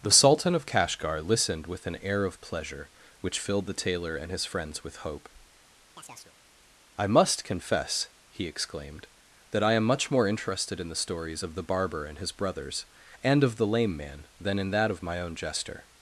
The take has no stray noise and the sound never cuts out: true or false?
false